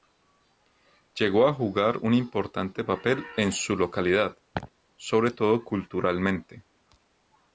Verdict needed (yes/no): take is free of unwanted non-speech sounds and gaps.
no